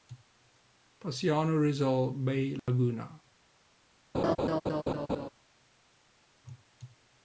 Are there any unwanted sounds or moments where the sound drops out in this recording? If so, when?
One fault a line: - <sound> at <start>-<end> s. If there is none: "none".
- dropout at 2.6-2.7 s
- laugh at 4.1-5.3 s